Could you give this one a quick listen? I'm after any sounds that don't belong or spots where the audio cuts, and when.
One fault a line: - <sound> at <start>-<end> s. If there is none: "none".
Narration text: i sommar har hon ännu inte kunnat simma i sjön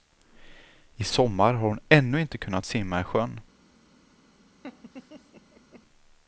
- laugh at 4.6-5.8 s